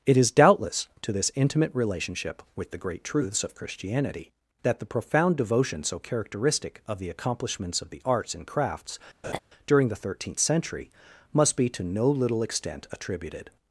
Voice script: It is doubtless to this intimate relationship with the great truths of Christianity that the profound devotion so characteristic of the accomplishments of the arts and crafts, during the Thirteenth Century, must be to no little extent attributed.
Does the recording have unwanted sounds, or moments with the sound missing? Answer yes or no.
yes